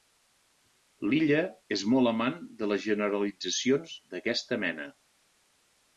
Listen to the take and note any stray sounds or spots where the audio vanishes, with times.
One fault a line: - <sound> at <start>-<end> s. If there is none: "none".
none